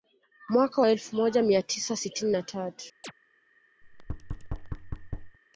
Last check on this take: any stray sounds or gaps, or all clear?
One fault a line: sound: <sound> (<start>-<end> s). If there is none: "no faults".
sound: chirp (3.0-3.1 s)
sound: thud (3.8-5.4 s)